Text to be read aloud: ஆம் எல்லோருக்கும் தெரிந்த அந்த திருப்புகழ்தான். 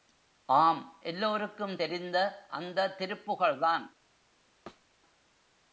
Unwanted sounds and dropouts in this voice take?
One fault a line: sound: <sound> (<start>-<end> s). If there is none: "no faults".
sound: thud (4.7-4.9 s)